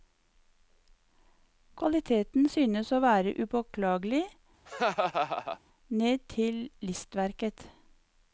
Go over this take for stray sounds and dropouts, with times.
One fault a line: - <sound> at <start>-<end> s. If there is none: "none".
- laugh at 4.7-5.6 s